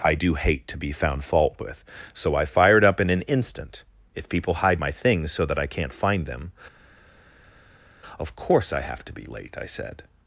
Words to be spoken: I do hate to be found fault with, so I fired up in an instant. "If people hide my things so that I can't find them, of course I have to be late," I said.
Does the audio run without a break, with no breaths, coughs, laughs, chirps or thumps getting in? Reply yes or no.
yes